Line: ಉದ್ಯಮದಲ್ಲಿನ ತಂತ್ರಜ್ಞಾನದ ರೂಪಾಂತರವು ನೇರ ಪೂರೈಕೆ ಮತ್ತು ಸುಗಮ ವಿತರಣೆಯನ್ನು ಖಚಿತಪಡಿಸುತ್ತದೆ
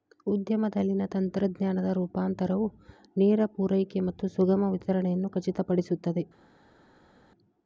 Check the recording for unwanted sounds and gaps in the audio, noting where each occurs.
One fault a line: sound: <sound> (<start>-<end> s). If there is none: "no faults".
no faults